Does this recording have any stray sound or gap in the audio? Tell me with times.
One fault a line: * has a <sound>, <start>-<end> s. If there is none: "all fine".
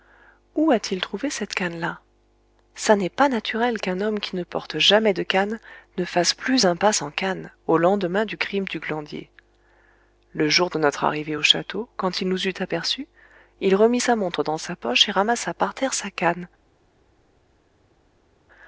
all fine